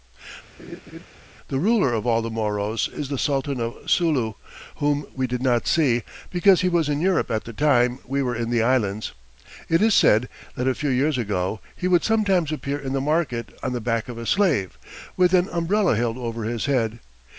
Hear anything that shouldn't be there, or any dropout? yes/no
yes